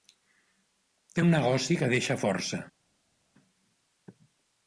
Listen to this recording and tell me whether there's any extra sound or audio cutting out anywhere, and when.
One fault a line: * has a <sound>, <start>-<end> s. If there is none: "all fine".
all fine